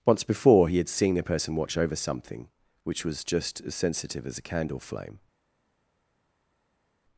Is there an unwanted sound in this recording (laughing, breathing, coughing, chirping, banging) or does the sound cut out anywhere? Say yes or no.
no